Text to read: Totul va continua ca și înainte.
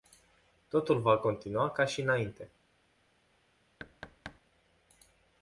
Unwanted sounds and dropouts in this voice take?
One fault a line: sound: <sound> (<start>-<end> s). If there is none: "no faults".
sound: thud (3.8-4.4 s)